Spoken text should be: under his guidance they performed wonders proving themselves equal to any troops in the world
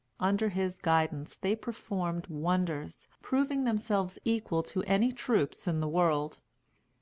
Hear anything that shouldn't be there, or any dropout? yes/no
no